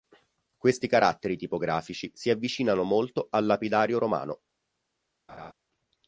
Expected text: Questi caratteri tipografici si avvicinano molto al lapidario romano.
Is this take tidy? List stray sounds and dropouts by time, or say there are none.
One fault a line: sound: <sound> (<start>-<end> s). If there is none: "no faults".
sound: laugh (5.3-5.5 s)